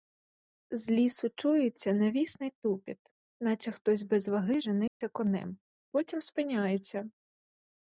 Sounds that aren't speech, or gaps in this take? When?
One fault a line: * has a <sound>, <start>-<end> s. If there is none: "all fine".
* has a dropout, 4.9-5.0 s